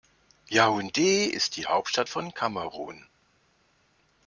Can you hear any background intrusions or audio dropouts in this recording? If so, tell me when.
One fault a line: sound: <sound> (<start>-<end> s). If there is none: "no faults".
no faults